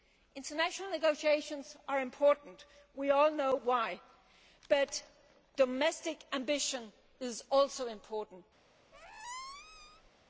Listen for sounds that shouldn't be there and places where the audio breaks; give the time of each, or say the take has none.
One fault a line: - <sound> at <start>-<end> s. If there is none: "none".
- squeak at 8.9-10.1 s